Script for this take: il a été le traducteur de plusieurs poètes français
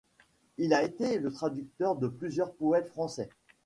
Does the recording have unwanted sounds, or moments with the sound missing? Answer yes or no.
no